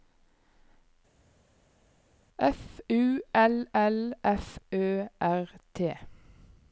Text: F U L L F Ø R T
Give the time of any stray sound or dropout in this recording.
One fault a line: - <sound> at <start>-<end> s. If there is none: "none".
none